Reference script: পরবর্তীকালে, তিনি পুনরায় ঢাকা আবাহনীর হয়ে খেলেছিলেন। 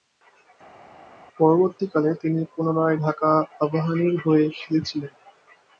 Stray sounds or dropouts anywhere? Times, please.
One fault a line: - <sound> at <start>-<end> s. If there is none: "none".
none